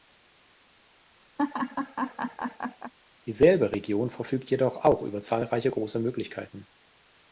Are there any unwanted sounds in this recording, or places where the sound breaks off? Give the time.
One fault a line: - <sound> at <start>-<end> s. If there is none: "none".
- laugh at 1.4-2.9 s